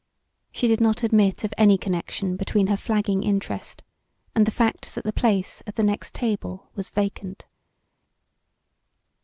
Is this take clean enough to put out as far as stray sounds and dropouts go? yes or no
yes